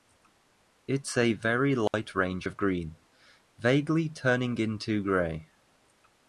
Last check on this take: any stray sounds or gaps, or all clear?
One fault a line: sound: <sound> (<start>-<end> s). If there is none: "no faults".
sound: dropout (1.9-1.9 s)